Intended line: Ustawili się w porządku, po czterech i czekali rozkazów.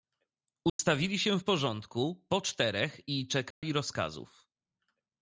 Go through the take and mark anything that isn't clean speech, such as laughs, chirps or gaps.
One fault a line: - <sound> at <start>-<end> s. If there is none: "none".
- dropout at 0.7-0.8 s
- dropout at 3.5-3.6 s